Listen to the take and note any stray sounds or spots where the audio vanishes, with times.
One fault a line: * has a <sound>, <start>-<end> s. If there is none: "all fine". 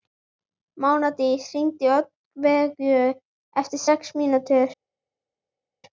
all fine